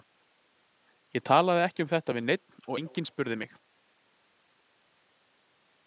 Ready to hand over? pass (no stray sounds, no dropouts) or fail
pass